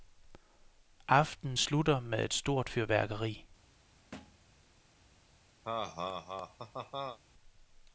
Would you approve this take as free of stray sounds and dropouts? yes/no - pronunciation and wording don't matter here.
no